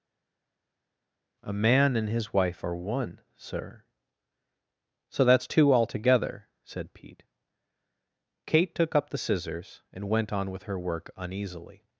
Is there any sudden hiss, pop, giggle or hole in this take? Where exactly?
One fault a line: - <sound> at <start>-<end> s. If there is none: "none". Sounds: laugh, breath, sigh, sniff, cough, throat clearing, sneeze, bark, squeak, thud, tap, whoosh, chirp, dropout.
none